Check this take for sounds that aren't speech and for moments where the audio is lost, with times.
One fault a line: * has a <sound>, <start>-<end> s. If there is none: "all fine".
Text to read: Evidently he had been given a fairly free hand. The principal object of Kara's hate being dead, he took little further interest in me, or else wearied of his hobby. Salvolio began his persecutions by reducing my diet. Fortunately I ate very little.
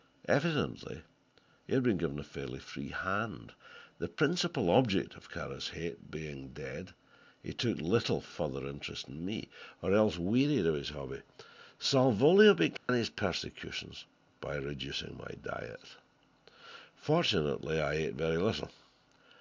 * has a dropout, 12.8-12.9 s